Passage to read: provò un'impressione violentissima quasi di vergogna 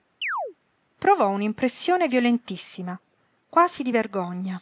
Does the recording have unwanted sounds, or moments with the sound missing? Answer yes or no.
yes